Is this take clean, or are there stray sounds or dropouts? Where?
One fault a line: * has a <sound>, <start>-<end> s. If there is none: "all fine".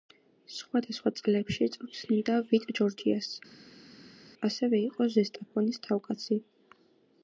all fine